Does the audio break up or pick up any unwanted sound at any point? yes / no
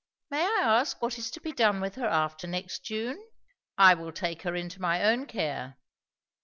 no